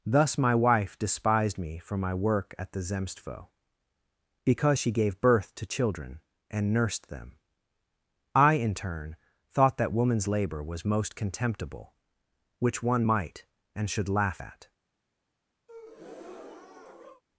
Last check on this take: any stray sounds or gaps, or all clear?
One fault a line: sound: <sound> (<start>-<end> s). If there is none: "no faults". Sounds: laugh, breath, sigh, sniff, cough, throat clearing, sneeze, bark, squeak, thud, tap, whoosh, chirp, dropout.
sound: breath (15.7-17.2 s)